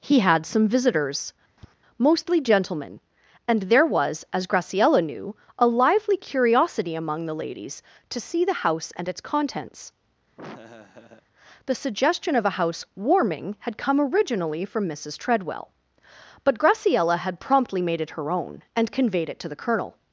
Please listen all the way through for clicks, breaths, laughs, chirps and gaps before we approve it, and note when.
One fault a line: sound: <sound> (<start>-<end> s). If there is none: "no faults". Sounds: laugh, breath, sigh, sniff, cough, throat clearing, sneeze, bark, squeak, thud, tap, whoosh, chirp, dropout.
sound: tap (1.6-1.7 s)
sound: laugh (10.4-11.3 s)